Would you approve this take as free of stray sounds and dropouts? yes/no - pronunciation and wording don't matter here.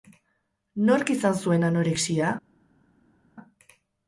yes